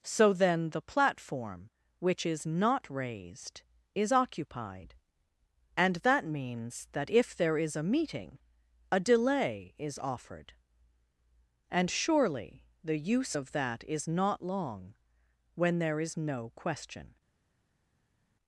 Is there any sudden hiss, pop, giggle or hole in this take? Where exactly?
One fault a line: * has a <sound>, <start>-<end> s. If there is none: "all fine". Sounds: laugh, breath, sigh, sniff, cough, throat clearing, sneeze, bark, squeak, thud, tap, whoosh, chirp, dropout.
all fine